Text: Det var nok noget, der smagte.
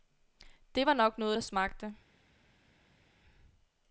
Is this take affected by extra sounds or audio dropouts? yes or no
no